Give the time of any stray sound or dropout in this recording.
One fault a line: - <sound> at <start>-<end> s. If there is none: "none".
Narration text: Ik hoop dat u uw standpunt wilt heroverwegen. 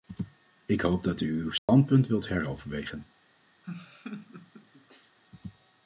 - dropout at 1.6-1.7 s
- laugh at 3.6-5.2 s